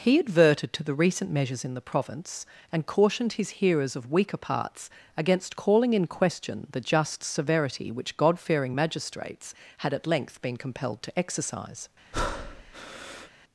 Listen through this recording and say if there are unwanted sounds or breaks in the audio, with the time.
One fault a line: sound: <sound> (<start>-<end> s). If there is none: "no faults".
sound: breath (12.1-13.3 s)